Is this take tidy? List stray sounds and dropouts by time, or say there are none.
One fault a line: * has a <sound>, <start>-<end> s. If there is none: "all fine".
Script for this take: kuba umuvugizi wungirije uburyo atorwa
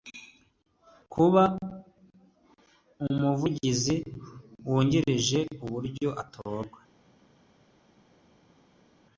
all fine